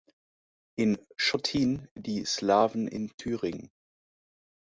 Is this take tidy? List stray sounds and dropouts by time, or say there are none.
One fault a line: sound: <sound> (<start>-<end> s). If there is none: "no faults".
no faults